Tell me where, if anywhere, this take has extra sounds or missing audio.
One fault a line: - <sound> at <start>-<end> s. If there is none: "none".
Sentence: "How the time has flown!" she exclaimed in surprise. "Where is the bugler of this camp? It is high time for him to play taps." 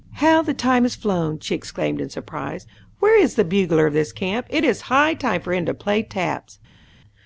none